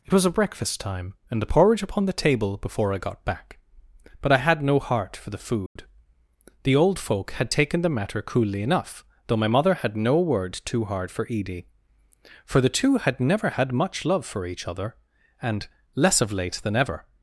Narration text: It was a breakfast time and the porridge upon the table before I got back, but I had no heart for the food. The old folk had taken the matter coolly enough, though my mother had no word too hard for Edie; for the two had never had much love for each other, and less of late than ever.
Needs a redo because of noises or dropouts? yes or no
yes